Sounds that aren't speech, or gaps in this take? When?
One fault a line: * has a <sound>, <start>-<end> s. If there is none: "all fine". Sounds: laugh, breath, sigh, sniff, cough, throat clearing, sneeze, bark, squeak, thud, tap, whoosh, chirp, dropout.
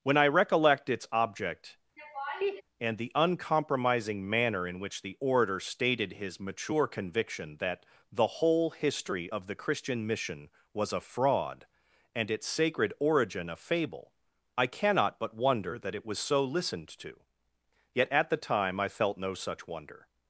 * has a laugh, 2.0-2.6 s